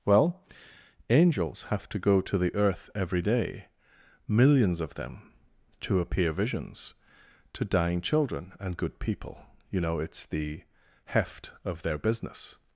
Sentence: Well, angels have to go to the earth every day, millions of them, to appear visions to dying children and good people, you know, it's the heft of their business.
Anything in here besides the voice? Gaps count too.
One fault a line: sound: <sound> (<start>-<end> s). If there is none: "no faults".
no faults